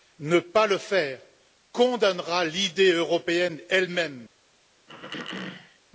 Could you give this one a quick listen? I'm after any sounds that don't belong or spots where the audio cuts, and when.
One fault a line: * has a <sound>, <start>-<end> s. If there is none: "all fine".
* has a throat clearing, 4.9-5.8 s